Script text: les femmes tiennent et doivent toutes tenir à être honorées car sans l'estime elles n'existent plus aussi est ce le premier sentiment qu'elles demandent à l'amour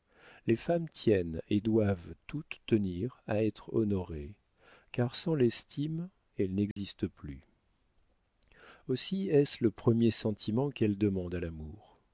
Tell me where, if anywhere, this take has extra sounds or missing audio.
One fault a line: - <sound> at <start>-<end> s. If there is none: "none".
- dropout at 6.7-6.8 s